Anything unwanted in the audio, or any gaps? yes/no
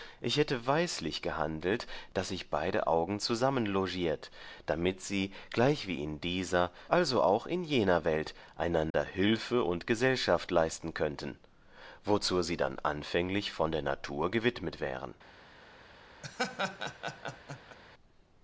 yes